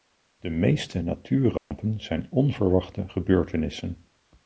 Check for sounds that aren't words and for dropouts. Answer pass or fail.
fail